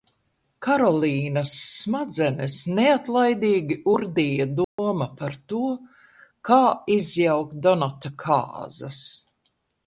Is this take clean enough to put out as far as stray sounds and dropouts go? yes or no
no